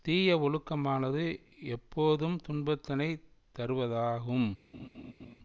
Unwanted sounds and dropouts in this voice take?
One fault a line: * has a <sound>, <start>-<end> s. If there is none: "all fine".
* has a laugh, 4.7-5.4 s